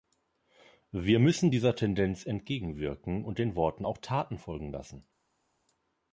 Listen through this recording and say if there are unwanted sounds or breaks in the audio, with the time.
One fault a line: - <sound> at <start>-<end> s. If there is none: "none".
none